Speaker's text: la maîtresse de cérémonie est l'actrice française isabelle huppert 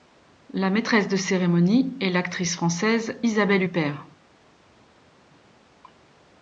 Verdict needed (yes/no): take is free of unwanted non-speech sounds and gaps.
yes